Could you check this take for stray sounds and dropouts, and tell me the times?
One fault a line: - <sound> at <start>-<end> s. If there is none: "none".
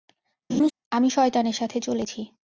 - laugh at 0.5-0.7 s